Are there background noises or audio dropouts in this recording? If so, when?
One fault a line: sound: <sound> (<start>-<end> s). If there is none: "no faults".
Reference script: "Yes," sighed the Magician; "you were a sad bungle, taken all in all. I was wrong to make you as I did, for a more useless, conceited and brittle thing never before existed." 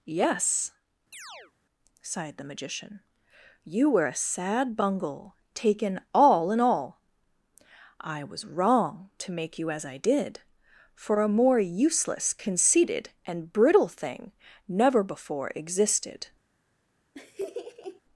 sound: chirp (1.1-1.5 s)
sound: laugh (17.1-18.0 s)